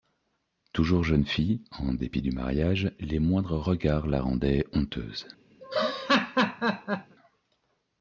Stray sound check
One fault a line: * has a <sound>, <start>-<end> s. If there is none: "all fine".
* has a laugh, 5.6-7.2 s